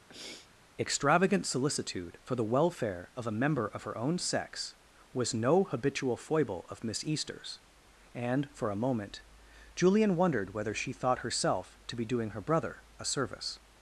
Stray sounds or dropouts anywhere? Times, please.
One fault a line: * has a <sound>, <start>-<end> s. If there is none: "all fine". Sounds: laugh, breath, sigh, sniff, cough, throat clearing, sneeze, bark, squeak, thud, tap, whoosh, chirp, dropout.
* has a sniff, 0.1-0.5 s